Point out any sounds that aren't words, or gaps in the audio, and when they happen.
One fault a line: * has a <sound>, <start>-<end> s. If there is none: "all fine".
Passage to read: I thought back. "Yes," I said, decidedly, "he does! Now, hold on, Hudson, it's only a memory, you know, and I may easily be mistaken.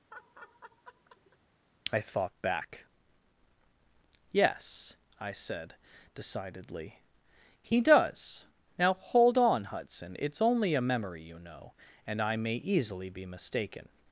* has a laugh, 0.1-1.4 s